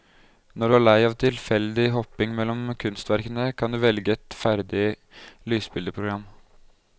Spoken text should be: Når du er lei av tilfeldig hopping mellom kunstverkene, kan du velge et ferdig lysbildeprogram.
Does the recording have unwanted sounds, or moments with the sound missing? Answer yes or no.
no